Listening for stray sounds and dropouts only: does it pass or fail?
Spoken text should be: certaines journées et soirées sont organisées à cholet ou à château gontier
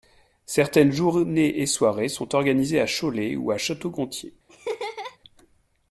fail